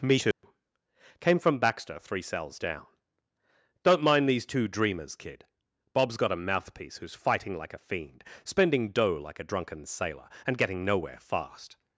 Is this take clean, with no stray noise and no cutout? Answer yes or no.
no